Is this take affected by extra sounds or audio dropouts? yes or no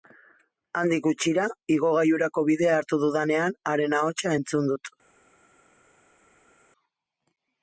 no